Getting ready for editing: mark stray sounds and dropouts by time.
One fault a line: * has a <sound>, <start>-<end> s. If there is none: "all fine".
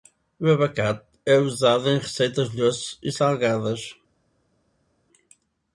all fine